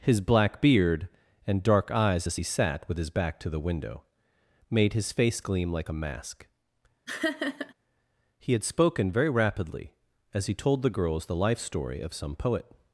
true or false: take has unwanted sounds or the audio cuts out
true